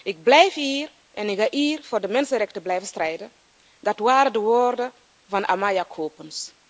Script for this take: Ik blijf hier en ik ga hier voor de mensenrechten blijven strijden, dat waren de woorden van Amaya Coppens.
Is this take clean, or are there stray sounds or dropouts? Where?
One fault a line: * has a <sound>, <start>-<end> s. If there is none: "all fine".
all fine